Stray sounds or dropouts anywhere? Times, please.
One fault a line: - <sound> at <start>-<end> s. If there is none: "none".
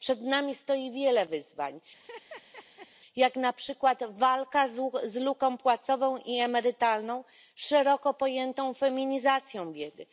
- laugh at 1.9-2.9 s